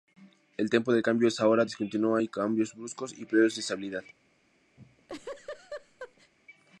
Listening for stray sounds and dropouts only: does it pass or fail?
fail